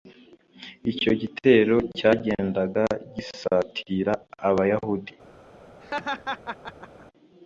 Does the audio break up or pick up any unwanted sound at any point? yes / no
yes